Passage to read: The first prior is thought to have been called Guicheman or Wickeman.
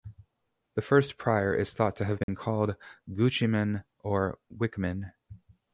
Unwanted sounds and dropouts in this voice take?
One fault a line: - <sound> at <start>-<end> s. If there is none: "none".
- dropout at 2.2-2.3 s